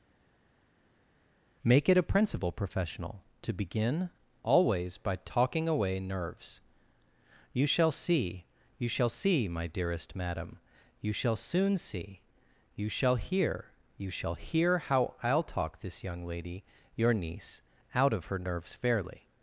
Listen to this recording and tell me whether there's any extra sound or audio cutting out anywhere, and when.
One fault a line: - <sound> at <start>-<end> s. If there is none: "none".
none